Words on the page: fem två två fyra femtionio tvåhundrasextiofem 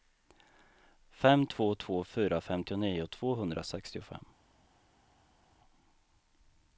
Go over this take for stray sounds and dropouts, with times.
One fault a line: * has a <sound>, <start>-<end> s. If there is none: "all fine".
all fine